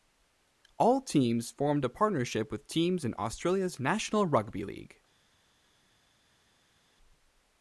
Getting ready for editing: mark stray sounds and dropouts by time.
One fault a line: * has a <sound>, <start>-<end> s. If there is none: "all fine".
all fine